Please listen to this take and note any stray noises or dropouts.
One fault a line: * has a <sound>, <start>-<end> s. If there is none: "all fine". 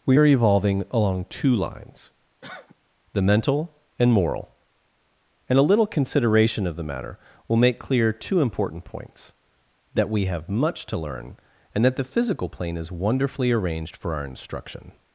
* has a cough, 2.4-2.8 s